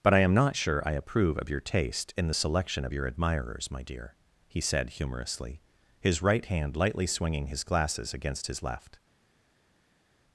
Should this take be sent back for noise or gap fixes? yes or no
no